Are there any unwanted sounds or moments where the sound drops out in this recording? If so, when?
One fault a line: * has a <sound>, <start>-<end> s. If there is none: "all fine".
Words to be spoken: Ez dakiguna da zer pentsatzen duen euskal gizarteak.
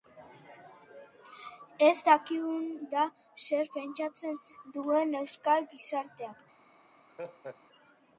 * has a laugh, 7.1-7.6 s